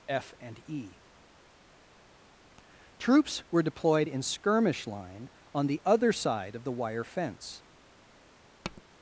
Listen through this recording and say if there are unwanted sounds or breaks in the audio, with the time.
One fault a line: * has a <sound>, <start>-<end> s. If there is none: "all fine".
* has a tap, 8.6-8.8 s